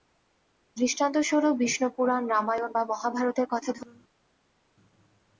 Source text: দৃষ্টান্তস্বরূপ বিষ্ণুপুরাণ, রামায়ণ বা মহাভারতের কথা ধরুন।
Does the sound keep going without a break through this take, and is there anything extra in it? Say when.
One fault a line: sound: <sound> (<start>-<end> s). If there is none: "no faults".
no faults